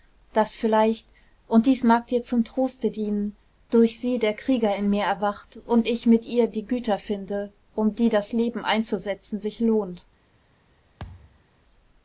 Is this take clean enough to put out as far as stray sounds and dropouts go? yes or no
no